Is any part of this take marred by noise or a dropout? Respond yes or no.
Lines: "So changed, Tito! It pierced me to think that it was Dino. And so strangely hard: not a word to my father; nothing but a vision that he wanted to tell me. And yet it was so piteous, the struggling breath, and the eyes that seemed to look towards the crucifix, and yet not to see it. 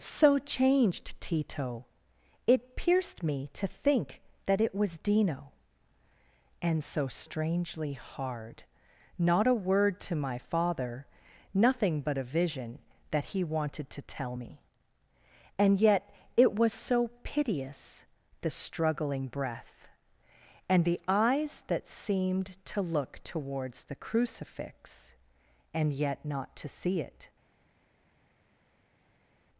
no